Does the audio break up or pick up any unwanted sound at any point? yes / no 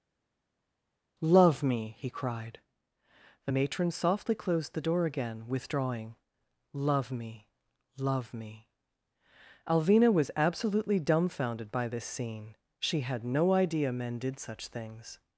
no